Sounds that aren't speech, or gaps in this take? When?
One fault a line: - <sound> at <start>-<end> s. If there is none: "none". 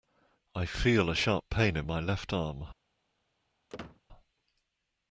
- squeak at 3.7-4.0 s